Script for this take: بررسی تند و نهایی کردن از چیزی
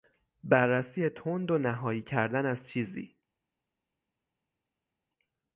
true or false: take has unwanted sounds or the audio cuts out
false